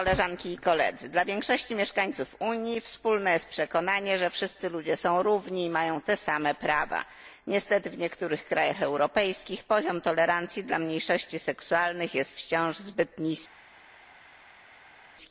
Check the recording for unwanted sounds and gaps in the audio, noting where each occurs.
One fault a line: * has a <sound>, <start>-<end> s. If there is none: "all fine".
all fine